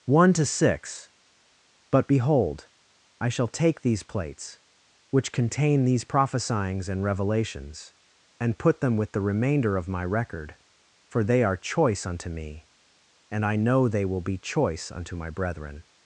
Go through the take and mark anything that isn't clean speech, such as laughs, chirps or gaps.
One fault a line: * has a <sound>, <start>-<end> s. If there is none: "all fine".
all fine